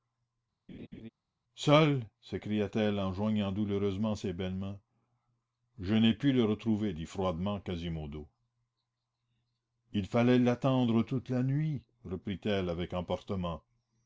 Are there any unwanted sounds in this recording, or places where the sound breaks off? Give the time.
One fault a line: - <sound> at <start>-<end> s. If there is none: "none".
- laugh at 0.7-1.1 s